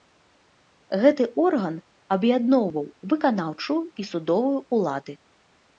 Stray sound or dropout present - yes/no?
no